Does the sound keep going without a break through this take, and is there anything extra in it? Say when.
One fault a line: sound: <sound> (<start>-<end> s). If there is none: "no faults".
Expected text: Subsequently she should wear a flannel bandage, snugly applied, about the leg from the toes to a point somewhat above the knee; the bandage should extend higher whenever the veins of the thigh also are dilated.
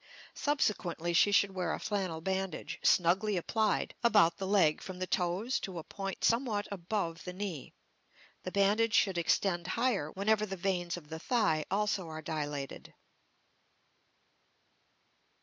no faults